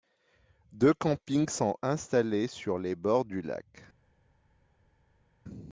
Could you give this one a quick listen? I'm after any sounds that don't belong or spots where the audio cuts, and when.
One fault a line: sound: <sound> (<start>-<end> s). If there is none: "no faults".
no faults